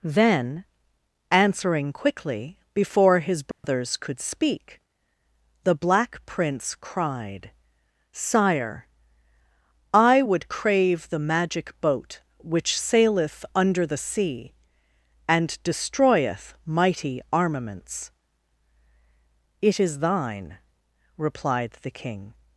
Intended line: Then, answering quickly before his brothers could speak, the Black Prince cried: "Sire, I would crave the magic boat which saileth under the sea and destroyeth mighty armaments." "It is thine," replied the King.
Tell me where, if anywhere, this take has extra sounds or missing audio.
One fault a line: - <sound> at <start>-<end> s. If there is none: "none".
- dropout at 3.5-3.6 s